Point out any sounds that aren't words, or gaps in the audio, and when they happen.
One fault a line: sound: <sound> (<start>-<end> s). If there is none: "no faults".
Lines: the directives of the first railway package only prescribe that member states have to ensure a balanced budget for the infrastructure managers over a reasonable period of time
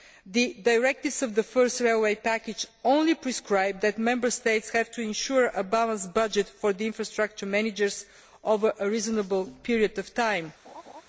sound: laugh (10.6-11.0 s)